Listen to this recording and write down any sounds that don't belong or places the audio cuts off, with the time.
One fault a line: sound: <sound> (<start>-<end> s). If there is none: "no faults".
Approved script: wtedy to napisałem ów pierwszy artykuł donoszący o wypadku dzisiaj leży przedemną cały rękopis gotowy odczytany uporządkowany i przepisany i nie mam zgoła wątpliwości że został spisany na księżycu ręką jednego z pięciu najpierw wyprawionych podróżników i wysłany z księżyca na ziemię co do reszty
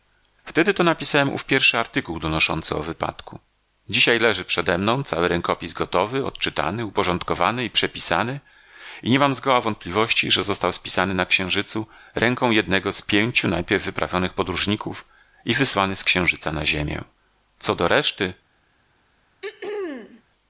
sound: throat clearing (19.4-20.2 s)